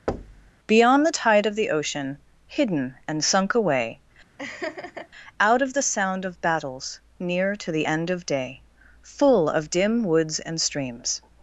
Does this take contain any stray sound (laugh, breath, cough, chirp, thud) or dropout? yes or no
yes